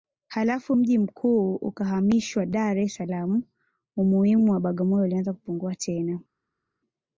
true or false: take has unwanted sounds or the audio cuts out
false